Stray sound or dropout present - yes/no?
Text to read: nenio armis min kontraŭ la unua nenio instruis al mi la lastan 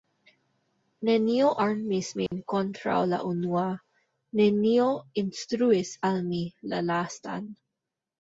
yes